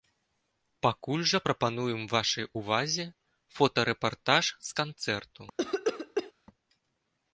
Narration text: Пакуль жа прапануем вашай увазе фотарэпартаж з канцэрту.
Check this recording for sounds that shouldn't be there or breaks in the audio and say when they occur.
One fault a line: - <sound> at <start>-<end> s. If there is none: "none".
- cough at 5.6-6.3 s